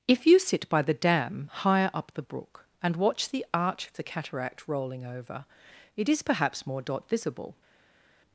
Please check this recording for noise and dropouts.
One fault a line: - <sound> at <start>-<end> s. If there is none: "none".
none